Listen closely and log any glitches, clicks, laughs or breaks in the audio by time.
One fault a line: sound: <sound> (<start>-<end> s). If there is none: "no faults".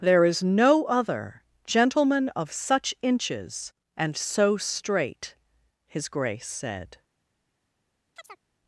sound: chirp (8.2-8.4 s)